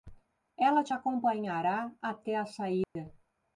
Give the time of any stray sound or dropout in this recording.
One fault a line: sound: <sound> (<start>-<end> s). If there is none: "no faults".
sound: dropout (2.8-3.0 s)